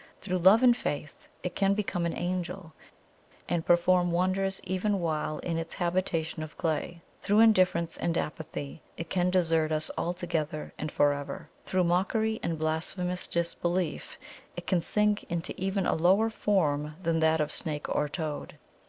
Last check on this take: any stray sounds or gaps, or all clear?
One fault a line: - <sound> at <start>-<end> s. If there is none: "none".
none